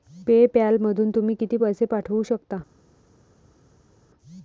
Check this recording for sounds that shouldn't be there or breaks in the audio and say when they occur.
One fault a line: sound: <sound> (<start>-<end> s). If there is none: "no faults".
no faults